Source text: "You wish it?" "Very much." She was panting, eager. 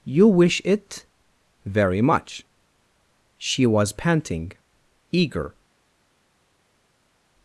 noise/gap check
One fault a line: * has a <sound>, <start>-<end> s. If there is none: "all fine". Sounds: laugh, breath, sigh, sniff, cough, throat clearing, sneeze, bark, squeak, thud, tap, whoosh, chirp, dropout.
all fine